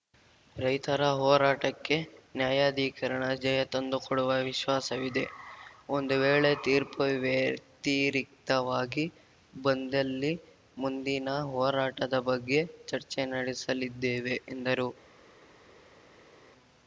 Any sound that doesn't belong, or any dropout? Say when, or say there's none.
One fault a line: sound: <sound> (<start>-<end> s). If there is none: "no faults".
no faults